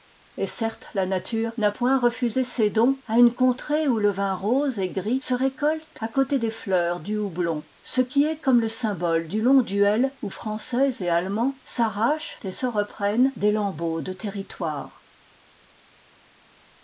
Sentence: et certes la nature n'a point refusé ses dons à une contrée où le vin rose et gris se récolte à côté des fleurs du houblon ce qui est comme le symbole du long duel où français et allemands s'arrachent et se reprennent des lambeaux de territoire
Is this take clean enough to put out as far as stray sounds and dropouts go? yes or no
yes